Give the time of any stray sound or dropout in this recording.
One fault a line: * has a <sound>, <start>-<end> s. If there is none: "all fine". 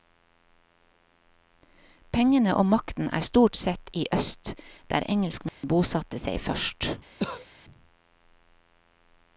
* has a dropout, 5.5-5.6 s
* has a cough, 7.2-7.5 s